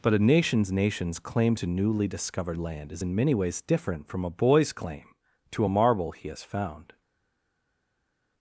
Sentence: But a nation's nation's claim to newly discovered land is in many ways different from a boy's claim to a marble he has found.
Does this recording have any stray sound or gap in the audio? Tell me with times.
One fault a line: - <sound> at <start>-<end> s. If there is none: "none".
none